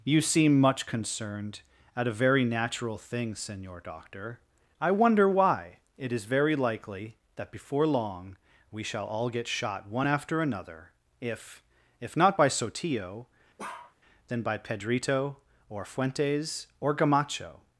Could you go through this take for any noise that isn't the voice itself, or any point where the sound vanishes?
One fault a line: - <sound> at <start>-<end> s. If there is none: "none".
- bark at 13.6-13.9 s